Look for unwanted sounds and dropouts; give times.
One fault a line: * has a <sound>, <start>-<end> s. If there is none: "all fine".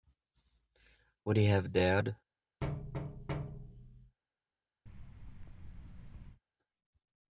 * has a thud, 2.6-4.2 s
* has a thud, 4.9-6.4 s